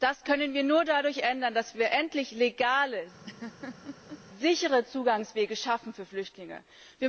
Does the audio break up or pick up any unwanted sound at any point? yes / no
yes